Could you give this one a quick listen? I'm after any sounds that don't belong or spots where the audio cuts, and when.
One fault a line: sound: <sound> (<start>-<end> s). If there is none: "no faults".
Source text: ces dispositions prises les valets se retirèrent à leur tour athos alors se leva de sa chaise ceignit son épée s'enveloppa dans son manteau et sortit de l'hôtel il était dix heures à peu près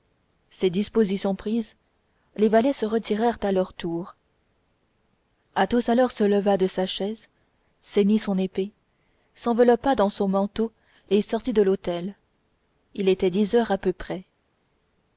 no faults